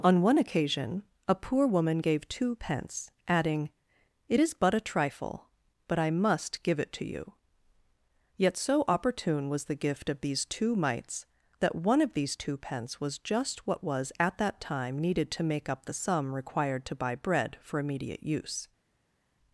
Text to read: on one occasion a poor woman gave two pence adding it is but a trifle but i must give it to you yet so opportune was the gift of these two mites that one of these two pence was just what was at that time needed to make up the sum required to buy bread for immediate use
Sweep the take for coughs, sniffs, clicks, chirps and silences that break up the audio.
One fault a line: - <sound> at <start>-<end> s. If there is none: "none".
none